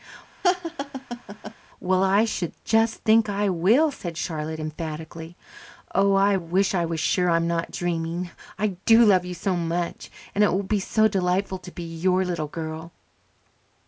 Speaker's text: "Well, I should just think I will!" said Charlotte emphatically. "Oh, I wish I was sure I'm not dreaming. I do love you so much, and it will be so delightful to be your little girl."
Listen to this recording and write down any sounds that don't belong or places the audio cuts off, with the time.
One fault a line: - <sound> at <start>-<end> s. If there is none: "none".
- laugh at 0.4-1.5 s